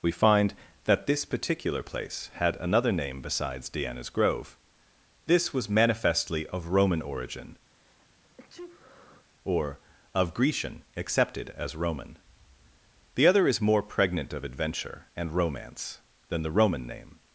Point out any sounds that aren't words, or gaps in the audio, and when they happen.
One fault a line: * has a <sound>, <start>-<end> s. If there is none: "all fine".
* has a sneeze, 7.7-9.3 s